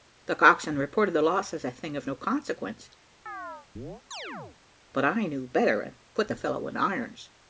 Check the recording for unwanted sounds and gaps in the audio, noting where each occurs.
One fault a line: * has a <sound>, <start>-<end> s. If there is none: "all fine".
* has a chirp, 3.3-4.6 s